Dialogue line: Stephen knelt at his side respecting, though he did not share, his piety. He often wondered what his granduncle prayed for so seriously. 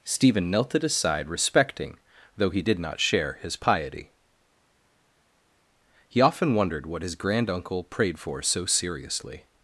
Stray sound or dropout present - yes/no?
no